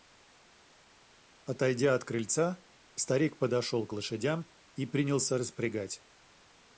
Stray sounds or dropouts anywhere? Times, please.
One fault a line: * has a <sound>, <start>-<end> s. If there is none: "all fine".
all fine